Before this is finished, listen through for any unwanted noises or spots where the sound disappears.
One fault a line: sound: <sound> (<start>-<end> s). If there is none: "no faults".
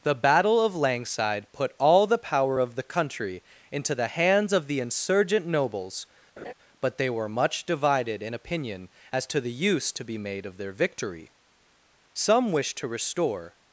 sound: laugh (6.4-6.5 s)